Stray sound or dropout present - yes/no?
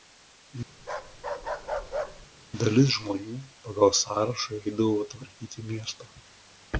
yes